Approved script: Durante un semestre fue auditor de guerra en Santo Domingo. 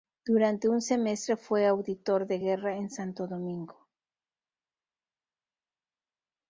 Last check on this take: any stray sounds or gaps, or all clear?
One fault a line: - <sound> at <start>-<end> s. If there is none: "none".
none